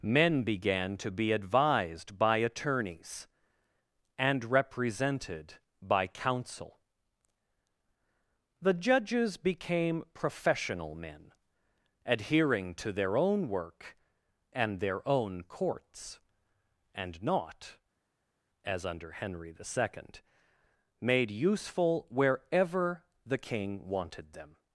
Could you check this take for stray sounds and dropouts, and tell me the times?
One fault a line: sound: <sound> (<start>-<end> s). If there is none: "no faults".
no faults